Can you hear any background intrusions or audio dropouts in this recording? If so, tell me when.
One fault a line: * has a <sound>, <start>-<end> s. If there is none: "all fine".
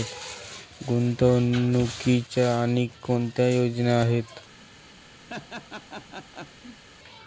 * has a laugh, 5.3-6.8 s